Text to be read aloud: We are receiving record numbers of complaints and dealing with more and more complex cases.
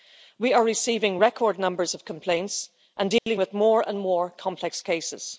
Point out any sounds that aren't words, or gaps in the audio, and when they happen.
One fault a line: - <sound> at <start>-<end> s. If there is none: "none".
- dropout at 3.2-3.3 s